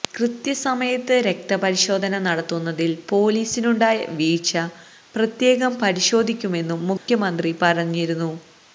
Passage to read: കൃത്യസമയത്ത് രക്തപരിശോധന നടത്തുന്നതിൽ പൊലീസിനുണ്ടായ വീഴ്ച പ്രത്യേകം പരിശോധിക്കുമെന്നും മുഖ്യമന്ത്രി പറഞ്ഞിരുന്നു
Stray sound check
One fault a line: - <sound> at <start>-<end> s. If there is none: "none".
- dropout at 7.0-7.1 s